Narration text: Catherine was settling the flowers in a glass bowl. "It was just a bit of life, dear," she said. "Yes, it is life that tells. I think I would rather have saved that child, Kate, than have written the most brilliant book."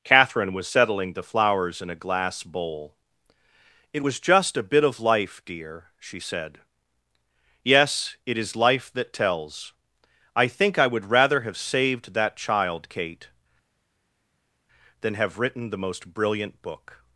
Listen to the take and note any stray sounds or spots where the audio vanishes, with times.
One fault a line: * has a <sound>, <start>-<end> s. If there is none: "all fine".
all fine